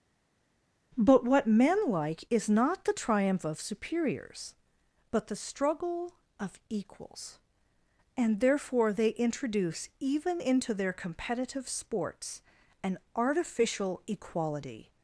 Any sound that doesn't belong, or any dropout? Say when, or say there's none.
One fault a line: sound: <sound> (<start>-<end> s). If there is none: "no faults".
no faults